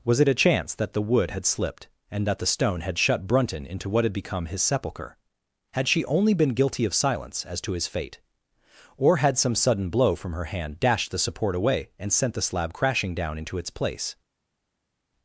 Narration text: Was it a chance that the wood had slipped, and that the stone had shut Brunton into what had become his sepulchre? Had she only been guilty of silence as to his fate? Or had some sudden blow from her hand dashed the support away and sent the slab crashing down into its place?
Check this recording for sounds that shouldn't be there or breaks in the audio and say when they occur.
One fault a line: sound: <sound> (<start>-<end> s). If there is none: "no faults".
no faults